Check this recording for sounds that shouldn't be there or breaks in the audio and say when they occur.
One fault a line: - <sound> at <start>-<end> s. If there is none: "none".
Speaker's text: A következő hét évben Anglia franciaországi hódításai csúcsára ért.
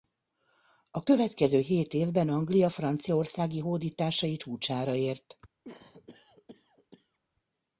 - cough at 5.6-7.2 s